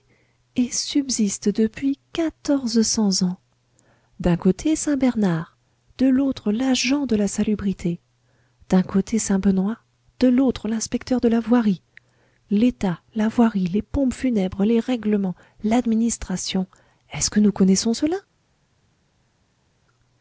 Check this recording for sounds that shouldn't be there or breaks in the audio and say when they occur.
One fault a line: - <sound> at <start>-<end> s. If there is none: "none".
none